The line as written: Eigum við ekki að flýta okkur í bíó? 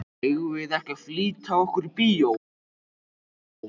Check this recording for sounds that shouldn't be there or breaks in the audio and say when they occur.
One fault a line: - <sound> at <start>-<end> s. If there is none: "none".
none